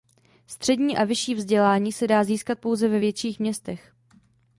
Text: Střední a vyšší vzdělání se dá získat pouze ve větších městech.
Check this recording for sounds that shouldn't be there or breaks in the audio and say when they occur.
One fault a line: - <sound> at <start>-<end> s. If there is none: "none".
none